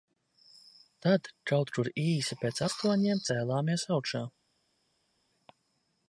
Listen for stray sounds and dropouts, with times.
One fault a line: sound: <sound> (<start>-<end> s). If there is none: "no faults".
no faults